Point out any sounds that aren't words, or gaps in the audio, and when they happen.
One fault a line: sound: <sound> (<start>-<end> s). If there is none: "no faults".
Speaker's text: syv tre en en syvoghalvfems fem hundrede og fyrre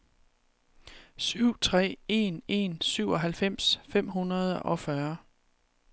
no faults